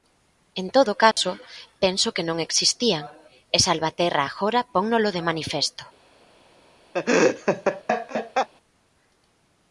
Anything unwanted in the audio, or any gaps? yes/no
yes